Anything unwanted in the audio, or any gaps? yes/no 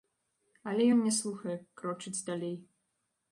no